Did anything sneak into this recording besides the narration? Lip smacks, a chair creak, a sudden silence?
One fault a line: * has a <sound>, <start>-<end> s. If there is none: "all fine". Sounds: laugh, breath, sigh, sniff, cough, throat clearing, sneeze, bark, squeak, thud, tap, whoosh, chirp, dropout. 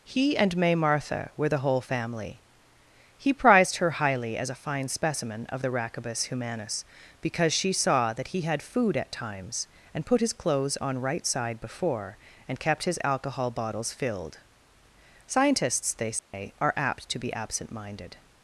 * has a dropout, 16.2-16.3 s